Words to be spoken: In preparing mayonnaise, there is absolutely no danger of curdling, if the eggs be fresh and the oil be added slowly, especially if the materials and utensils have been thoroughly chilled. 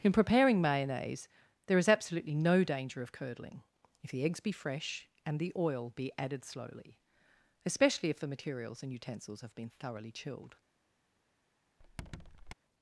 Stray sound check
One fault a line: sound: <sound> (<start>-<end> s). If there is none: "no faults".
sound: squeak (11.8-12.5 s)